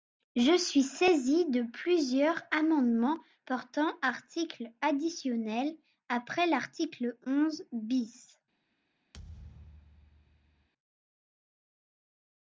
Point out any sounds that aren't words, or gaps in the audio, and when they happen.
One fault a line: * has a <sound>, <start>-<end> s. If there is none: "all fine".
* has a thud, 9.1-10.7 s